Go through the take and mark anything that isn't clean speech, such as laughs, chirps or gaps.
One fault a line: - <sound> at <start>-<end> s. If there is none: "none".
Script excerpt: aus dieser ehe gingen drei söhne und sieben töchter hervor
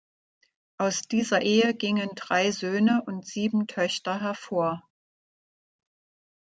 none